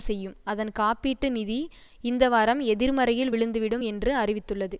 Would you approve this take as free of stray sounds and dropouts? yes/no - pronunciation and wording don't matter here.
yes